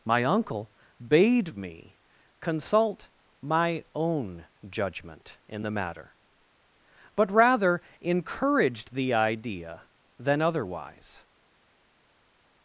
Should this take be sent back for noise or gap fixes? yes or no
no